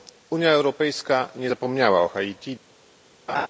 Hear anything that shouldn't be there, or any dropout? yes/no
yes